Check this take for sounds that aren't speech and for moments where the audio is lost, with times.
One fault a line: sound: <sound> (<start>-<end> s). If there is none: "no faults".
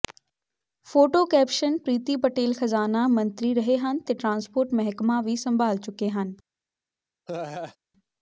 sound: laugh (7.3-7.8 s)